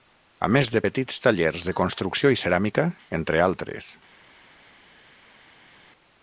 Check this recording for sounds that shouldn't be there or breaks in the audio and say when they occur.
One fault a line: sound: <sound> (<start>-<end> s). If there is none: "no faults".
no faults